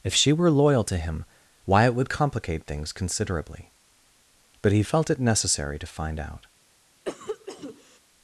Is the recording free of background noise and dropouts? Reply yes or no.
no